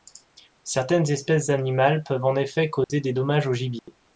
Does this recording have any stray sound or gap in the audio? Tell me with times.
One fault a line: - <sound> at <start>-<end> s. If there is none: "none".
- dropout at 2.8-2.9 s
- dropout at 3.8-3.9 s